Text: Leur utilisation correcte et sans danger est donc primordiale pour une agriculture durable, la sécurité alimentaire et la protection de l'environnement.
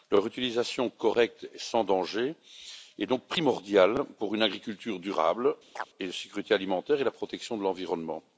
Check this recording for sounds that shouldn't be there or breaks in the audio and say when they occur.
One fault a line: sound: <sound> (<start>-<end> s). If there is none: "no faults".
sound: chirp (5.8-5.9 s)